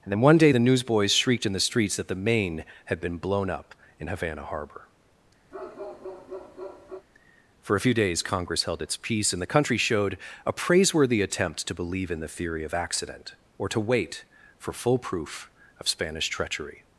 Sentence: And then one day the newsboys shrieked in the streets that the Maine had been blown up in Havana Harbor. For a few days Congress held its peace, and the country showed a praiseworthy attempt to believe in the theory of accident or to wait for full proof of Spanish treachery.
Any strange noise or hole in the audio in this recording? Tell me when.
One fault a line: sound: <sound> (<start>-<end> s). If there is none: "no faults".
sound: bark (5.5-7.1 s)